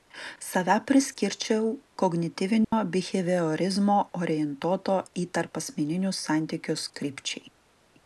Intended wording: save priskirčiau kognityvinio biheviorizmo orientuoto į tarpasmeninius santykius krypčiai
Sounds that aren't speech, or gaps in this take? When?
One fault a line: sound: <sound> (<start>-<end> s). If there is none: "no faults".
sound: dropout (2.6-2.7 s)